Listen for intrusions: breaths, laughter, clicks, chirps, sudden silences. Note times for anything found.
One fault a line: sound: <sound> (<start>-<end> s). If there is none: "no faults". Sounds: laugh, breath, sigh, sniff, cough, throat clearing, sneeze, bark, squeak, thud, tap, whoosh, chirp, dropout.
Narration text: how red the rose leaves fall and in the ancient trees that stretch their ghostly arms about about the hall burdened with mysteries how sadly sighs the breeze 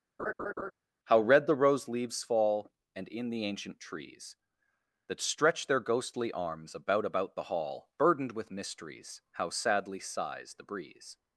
sound: laugh (0.2-0.7 s)